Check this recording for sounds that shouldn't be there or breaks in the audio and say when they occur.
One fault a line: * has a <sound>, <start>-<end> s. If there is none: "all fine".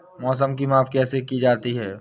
all fine